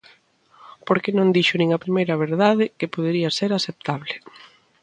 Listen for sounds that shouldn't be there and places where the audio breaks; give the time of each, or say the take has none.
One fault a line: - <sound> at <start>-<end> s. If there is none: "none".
none